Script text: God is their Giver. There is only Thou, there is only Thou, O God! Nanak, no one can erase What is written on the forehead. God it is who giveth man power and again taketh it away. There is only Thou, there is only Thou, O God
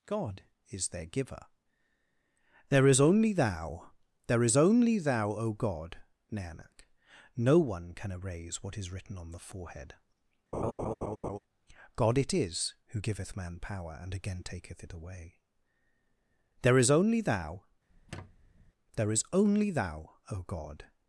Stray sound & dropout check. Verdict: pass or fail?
fail